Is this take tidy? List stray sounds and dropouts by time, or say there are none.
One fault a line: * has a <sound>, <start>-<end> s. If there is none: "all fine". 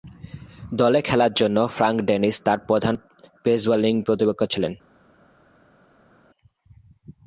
all fine